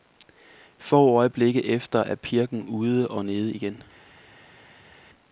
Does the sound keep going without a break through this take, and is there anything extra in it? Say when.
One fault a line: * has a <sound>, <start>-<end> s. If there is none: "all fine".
all fine